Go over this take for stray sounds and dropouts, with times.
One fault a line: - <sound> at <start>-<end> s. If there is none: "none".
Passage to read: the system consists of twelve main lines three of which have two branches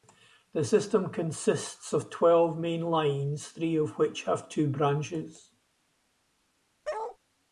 - bark at 6.8-7.2 s